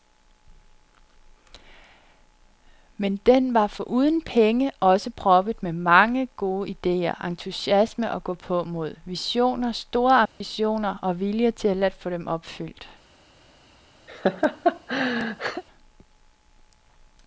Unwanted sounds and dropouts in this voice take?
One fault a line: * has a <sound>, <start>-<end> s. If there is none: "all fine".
* has a dropout, 10.3-10.4 s
* has a laugh, 14.1-15.6 s